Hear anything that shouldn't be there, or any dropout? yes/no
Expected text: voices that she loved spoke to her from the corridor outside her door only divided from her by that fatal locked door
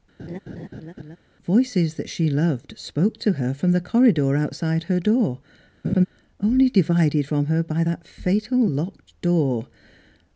yes